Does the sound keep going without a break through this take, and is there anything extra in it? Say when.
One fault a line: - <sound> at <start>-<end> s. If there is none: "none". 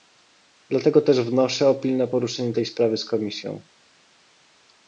none